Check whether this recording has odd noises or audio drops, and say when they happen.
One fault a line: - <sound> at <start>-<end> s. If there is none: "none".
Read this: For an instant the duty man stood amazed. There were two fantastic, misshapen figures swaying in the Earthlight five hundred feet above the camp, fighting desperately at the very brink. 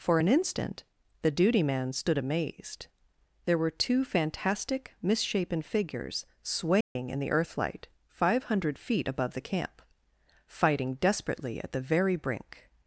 - dropout at 6.8-7.0 s